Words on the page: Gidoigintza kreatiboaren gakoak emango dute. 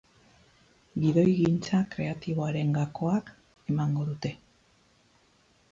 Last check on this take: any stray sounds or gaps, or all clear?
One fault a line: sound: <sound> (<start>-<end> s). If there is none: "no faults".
no faults